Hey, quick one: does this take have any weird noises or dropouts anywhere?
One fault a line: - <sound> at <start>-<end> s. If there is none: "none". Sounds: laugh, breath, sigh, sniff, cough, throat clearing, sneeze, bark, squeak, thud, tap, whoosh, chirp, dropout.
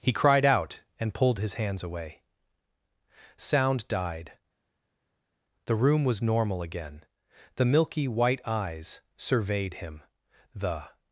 none